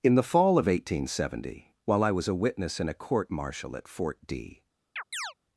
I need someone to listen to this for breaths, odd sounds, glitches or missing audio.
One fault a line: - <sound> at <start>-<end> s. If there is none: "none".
- chirp at 5.0-5.3 s